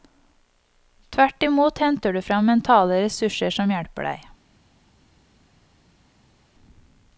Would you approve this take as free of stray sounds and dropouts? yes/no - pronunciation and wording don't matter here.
yes